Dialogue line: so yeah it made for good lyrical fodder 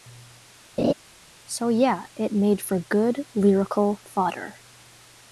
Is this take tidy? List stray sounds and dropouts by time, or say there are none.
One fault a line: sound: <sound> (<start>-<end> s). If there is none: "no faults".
sound: laugh (0.8-0.9 s)